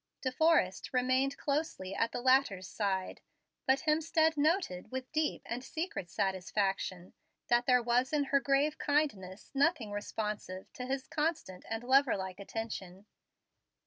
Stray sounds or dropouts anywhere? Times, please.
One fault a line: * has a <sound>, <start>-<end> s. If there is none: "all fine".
all fine